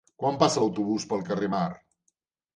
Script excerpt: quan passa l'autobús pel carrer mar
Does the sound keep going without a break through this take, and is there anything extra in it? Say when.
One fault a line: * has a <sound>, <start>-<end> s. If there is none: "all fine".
all fine